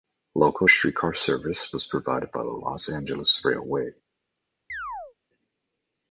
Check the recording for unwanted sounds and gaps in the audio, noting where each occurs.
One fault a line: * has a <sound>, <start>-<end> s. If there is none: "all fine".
* has a chirp, 4.7-5.1 s